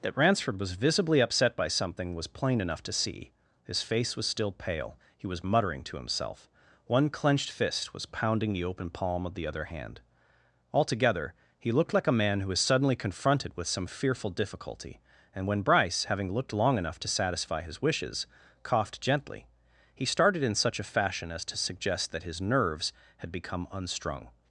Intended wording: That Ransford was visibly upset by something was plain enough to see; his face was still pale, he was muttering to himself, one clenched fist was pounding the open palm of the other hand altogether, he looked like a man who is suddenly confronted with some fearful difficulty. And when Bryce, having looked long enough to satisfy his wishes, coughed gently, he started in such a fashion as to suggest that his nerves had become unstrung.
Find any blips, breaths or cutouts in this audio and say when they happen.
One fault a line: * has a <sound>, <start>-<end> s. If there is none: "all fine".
all fine